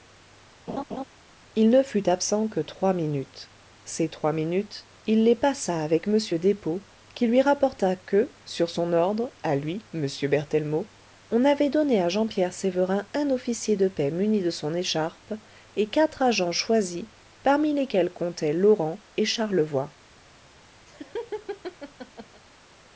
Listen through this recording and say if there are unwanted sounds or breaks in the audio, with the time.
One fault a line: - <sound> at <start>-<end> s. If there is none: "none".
- laugh at 0.7-1.0 s
- laugh at 20.9-22.4 s